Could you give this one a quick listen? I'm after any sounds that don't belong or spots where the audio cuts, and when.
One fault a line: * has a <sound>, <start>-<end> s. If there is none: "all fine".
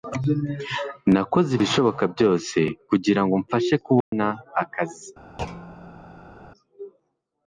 * has a dropout, 4.0-4.1 s
* has a thud, 5.4-6.4 s